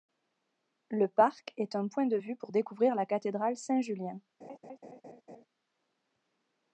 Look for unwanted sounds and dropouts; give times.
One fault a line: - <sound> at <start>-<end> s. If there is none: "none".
- laugh at 4.4-5.5 s